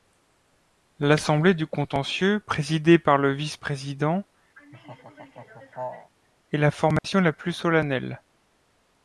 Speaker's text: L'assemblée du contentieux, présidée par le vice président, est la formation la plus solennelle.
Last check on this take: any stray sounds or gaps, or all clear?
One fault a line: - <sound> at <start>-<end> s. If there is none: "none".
- laugh at 4.6-6.1 s
- dropout at 7.0-7.0 s